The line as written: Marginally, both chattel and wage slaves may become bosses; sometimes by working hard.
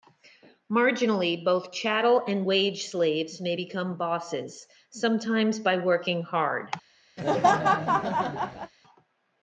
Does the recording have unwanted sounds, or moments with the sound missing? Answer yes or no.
yes